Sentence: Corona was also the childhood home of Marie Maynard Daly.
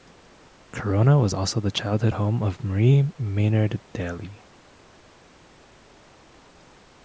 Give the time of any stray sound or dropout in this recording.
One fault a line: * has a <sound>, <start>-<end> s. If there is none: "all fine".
all fine